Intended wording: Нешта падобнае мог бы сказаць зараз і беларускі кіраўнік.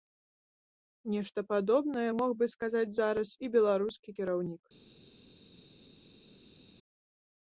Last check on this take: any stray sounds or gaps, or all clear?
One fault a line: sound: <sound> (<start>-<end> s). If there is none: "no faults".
no faults